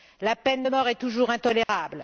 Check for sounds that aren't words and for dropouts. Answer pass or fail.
fail